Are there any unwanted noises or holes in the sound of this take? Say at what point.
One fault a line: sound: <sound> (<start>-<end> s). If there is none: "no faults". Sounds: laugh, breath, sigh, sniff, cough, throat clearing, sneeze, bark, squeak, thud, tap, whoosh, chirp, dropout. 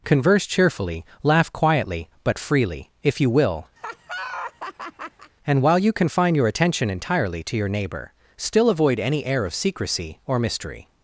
sound: laugh (3.8-5.3 s)